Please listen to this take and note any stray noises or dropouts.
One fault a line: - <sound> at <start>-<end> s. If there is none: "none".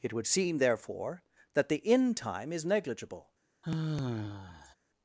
- sigh at 3.6-4.8 s